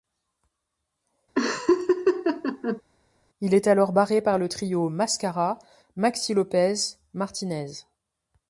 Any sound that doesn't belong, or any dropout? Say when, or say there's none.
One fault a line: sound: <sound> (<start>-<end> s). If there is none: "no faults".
sound: laugh (1.4-2.8 s)